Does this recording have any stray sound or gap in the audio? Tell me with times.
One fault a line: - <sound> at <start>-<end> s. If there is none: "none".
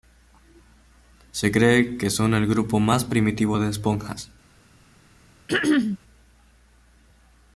- throat clearing at 5.5-6.0 s